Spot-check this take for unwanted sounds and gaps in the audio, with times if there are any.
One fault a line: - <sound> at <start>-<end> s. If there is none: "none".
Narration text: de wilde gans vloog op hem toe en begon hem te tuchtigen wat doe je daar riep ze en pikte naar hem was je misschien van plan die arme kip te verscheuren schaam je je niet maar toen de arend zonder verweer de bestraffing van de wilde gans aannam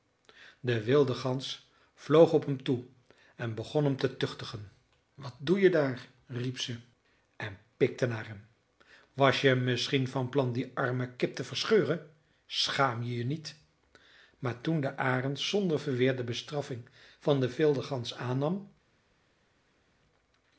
none